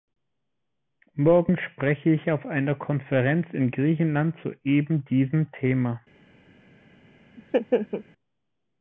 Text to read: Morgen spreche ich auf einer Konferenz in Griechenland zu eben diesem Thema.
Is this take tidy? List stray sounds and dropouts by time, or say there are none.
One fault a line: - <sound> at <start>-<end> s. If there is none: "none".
- laugh at 7.4-8.0 s